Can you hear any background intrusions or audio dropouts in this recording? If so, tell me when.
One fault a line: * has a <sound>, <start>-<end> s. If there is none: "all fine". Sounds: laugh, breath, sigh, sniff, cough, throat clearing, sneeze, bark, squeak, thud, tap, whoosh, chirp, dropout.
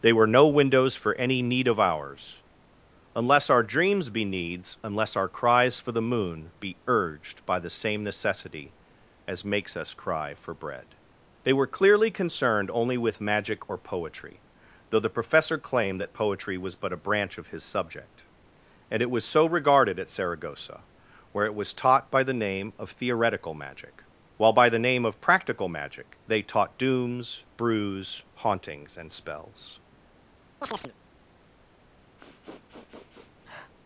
* has a chirp, 30.6-30.9 s
* has a sniff, 32.2-33.7 s